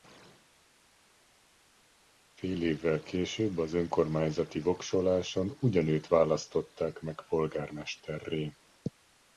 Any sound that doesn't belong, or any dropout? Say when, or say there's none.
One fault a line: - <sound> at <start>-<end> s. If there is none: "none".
none